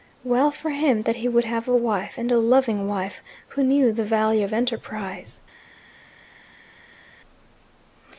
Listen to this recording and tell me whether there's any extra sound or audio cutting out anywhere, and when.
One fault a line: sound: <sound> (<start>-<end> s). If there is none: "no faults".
no faults